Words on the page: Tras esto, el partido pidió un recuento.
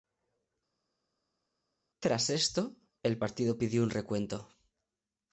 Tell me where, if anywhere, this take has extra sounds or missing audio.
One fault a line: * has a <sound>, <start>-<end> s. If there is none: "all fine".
all fine